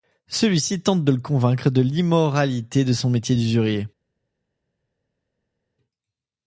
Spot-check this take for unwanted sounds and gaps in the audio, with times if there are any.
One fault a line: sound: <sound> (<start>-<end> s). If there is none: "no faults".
no faults